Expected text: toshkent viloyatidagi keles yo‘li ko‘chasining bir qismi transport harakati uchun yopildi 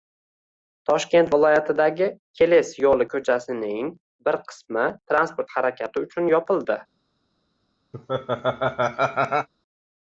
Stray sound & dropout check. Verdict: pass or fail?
fail